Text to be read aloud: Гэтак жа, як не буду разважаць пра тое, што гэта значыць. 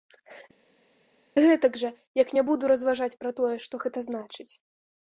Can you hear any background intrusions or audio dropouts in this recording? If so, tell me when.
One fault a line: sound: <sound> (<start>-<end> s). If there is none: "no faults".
no faults